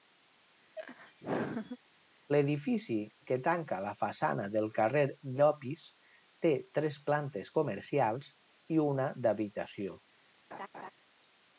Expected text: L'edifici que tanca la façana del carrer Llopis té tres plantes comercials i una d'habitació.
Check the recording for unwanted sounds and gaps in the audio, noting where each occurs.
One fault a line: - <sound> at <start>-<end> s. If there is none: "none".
- laugh at 0.8-1.8 s
- laugh at 10.5-10.9 s